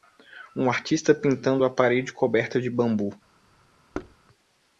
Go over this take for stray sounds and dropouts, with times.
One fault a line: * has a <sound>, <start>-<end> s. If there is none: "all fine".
* has a thud, 3.9-4.2 s